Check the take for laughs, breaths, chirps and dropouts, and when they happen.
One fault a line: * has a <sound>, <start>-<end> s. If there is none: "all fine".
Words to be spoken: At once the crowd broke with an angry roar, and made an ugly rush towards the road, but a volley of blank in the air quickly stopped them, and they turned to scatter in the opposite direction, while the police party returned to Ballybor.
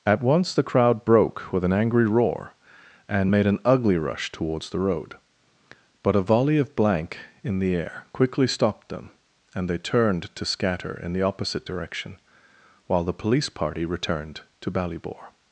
all fine